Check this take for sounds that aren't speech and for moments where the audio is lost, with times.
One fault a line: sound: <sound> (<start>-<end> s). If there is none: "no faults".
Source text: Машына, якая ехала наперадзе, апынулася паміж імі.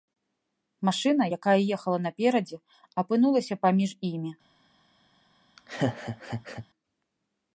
sound: laugh (5.6-6.7 s)